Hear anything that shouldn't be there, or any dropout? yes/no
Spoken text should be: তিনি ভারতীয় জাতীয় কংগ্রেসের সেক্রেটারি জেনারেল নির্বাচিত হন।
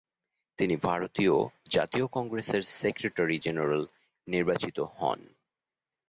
no